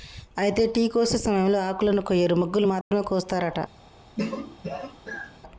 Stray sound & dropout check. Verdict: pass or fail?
fail